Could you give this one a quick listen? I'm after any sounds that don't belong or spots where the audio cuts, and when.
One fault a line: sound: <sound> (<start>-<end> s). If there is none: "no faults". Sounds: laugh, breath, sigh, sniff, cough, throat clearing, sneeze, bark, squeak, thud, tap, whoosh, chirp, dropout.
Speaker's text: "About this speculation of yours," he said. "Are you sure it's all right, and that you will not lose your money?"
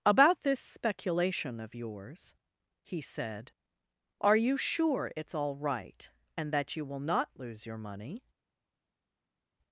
no faults